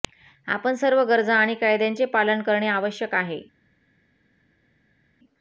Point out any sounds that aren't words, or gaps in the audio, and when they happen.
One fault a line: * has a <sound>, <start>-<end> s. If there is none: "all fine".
all fine